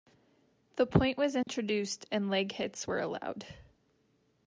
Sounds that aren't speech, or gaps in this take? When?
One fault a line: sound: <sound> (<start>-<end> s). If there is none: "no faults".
sound: dropout (1.4-1.5 s)